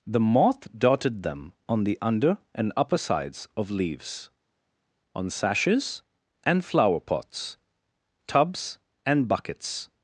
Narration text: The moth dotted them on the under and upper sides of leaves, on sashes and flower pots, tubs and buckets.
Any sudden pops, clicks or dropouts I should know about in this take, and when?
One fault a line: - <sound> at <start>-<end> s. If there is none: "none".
none